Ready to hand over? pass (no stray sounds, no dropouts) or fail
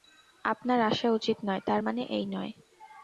pass